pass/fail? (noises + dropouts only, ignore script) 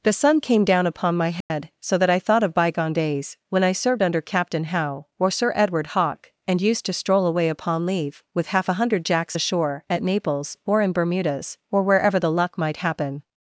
fail